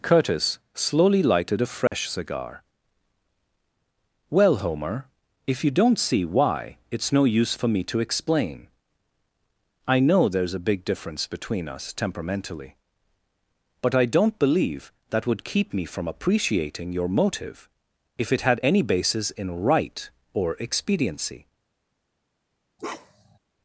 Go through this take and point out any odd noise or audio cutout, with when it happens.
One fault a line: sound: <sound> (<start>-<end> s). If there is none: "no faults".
sound: dropout (1.9-1.9 s)
sound: bark (22.8-23.4 s)